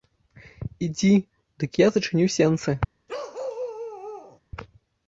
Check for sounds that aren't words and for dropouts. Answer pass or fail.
fail